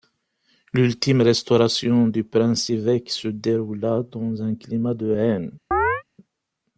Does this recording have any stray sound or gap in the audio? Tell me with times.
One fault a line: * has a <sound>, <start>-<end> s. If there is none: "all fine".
* has a chirp, 5.7-6.0 s